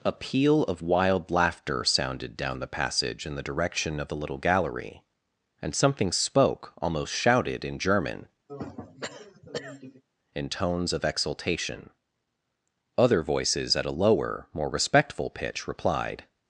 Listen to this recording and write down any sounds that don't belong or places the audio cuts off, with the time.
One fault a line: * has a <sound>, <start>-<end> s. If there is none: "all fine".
* has a throat clearing, 8.5-10.0 s